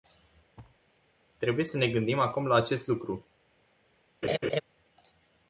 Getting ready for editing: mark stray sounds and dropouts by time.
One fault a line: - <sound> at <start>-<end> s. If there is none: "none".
- thud at 0.6-0.8 s
- laugh at 4.2-4.6 s